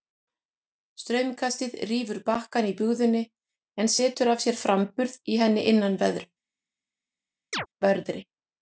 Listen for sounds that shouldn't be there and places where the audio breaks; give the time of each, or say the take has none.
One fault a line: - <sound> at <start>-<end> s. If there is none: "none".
- chirp at 7.5-7.7 s